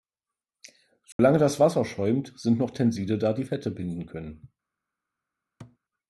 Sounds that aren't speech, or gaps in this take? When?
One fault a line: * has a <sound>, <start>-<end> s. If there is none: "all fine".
* has a dropout, 1.1-1.2 s
* has a thud, 5.6-5.8 s